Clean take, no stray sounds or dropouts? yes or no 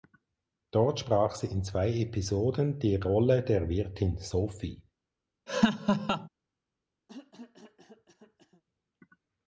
no